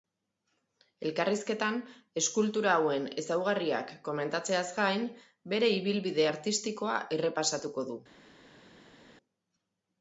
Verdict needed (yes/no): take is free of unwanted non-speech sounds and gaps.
yes